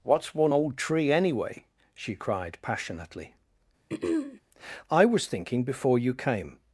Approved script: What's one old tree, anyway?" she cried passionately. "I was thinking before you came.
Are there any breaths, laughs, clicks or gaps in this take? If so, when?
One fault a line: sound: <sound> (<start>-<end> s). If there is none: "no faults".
sound: throat clearing (3.9-4.4 s)